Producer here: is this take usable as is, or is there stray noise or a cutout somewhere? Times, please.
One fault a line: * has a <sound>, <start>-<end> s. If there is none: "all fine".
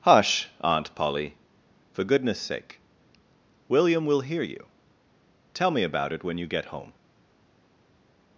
all fine